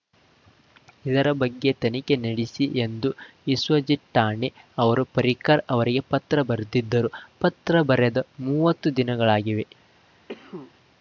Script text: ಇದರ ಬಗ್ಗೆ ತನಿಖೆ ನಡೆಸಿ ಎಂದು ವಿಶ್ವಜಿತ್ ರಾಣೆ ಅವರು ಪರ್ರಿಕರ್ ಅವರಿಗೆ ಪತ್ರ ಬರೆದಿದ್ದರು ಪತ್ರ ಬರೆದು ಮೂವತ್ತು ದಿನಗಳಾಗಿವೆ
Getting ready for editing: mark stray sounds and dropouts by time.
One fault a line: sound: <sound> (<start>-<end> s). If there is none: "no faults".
sound: cough (10.3-10.7 s)